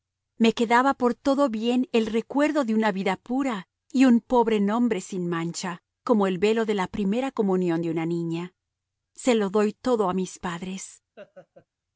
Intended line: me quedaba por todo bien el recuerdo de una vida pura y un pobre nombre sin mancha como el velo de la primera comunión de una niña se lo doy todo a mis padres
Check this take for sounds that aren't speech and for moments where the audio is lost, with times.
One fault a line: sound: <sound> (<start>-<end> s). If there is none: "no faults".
sound: laugh (11.2-11.7 s)